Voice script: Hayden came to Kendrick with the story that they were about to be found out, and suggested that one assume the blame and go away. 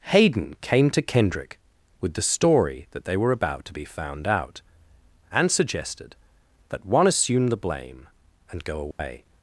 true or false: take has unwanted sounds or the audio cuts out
true